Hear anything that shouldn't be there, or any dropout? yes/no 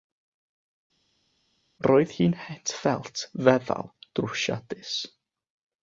no